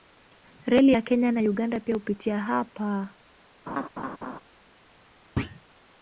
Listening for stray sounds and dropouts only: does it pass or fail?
fail